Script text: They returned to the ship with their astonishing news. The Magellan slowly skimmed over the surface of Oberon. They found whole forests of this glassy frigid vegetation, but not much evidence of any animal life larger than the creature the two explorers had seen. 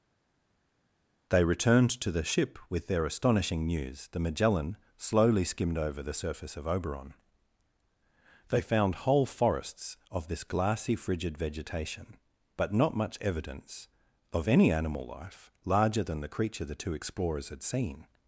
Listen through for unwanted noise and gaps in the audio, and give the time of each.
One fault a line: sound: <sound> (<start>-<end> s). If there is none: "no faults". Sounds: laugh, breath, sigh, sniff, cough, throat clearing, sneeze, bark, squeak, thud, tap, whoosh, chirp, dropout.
no faults